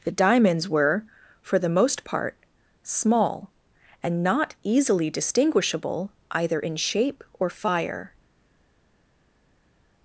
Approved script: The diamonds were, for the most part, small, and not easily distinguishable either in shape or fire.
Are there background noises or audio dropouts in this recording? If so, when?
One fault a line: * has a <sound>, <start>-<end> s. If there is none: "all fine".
all fine